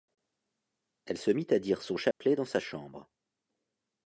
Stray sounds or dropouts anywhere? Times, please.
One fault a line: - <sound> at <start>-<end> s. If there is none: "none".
- dropout at 2.1-2.2 s